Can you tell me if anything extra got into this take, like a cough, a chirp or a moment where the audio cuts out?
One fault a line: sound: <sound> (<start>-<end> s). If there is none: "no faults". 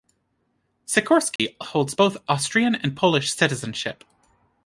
sound: dropout (1.4-1.4 s)